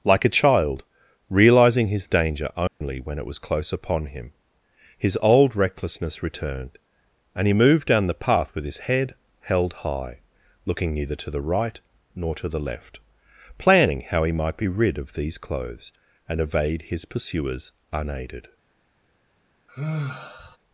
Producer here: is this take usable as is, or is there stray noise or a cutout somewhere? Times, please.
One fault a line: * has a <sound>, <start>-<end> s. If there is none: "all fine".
* has a dropout, 2.7-2.8 s
* has a sigh, 19.7-20.6 s